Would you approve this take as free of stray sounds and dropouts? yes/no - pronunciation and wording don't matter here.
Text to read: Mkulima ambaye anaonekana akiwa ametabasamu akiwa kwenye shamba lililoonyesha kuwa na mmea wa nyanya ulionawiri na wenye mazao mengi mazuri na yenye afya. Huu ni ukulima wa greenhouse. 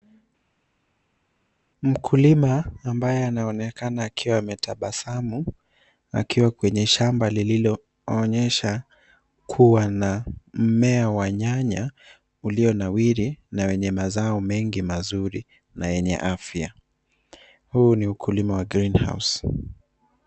yes